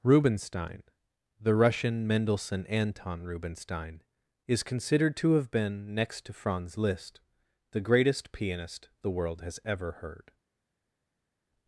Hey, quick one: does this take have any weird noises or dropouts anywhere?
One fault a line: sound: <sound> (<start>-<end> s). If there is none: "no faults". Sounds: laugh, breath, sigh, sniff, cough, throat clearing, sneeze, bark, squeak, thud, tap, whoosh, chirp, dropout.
no faults